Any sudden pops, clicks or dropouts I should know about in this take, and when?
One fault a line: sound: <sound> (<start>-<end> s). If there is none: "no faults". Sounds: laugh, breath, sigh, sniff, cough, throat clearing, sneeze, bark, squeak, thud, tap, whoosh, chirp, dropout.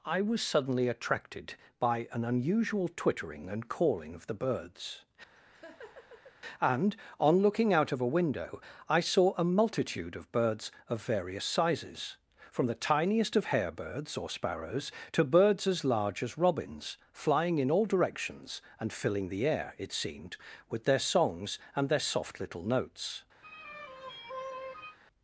sound: laugh (5.4-6.4 s)
sound: sigh (23.4-25.0 s)